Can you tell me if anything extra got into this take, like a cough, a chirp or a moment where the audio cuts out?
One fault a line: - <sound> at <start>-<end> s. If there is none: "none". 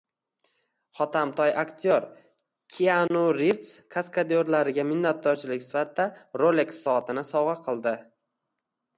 - dropout at 3.1-3.1 s